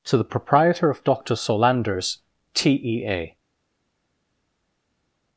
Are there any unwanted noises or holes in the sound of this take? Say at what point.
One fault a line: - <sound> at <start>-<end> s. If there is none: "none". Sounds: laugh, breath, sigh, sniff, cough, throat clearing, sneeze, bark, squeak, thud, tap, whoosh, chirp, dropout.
none